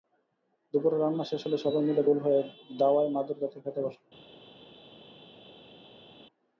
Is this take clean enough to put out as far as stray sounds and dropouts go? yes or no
yes